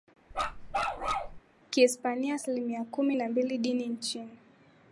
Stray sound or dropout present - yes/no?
yes